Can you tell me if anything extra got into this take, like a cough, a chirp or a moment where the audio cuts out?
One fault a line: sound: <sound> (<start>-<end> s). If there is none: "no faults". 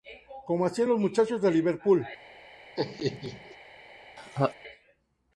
sound: laugh (2.8-3.6 s)
sound: laugh (4.2-4.5 s)